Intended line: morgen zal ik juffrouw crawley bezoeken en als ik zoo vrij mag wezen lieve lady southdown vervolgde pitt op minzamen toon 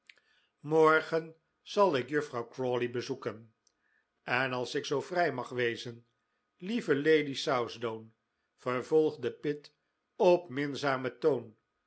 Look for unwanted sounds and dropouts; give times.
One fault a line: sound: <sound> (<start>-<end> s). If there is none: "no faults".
no faults